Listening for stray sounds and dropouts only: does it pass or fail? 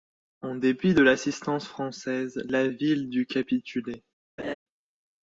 fail